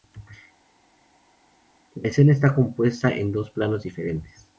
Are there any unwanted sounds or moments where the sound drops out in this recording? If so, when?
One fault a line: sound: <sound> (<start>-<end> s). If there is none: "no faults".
no faults